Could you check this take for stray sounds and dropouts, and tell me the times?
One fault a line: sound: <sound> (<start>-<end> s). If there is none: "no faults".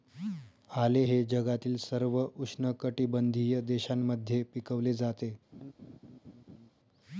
sound: laugh (5.5-6.7 s)